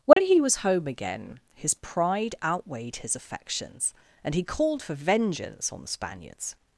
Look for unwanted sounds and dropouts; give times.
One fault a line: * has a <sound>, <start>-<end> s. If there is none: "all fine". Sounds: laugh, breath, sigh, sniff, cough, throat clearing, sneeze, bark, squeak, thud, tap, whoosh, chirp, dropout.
* has a dropout, 0.1-0.2 s